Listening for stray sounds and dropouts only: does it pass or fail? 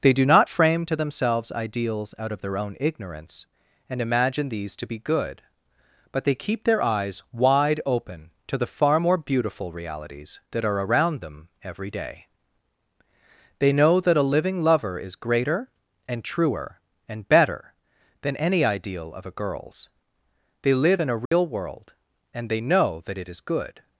fail